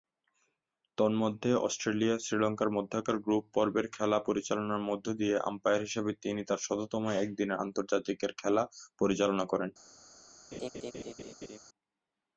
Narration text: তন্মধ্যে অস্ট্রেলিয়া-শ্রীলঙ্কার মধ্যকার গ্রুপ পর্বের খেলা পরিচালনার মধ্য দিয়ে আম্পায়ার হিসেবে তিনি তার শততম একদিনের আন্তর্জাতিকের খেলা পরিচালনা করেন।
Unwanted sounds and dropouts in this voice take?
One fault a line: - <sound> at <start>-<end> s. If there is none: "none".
- laugh at 10.5-11.6 s